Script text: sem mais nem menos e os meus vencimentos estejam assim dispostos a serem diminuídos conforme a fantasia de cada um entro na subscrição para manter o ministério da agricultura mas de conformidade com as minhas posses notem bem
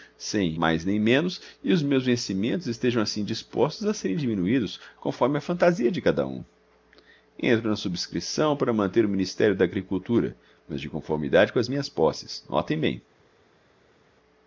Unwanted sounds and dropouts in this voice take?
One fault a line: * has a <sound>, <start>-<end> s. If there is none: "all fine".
all fine